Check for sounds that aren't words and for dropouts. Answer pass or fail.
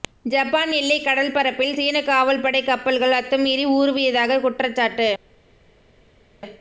pass